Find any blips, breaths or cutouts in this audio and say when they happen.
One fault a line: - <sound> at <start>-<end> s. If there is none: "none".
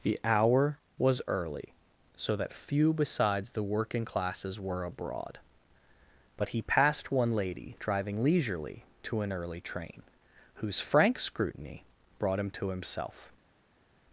none